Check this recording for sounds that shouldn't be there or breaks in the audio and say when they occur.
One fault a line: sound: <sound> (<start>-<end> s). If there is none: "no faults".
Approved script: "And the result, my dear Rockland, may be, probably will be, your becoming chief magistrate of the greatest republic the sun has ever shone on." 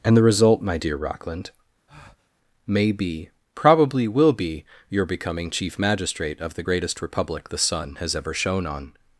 sound: breath (1.9-2.3 s)